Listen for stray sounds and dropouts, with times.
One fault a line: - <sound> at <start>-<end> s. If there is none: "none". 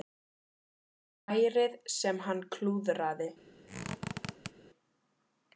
- squeak at 3.7-4.5 s